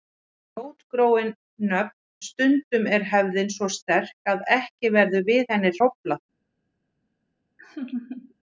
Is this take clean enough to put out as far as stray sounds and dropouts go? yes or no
no